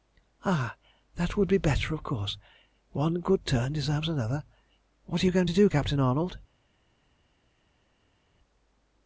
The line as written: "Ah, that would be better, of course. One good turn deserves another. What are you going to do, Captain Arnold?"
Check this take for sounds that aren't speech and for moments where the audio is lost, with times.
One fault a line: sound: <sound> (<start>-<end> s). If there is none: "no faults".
no faults